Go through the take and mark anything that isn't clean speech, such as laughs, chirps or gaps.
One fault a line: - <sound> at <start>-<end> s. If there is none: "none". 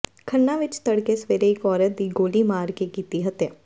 none